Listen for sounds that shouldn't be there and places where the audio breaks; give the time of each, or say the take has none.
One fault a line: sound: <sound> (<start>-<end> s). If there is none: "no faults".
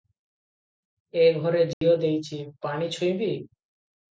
sound: dropout (1.7-1.8 s)